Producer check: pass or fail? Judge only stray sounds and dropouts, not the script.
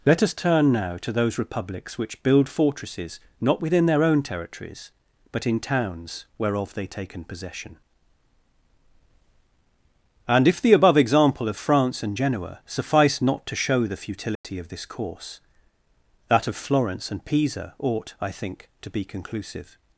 fail